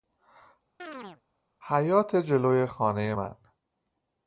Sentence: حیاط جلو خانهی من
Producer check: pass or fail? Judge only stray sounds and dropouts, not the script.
fail